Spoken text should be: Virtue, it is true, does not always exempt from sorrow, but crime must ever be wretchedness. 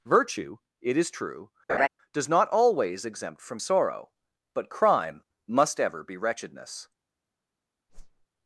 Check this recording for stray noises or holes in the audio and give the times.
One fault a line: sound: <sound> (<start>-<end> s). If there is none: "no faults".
sound: laugh (1.7-1.9 s)
sound: whoosh (7.9-8.3 s)